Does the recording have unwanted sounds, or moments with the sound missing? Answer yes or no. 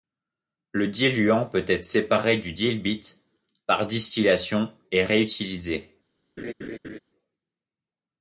yes